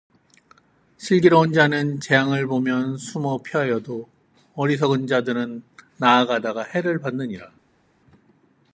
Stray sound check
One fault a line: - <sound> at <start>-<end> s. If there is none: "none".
none